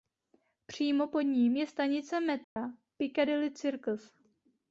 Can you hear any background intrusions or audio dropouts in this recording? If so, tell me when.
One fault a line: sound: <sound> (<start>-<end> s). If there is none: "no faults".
sound: dropout (2.4-2.6 s)